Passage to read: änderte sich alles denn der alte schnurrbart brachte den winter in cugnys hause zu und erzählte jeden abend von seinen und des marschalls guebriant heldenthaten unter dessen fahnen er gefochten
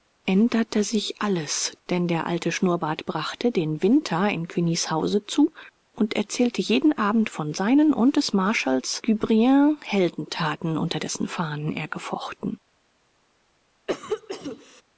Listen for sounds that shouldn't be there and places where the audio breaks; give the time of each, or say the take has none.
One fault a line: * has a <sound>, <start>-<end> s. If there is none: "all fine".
* has a cough, 13.9-14.8 s